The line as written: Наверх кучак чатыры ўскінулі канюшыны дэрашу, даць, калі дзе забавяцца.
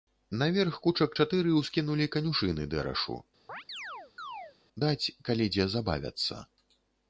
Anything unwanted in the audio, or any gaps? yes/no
yes